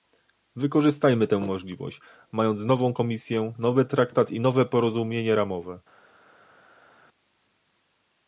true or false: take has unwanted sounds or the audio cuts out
false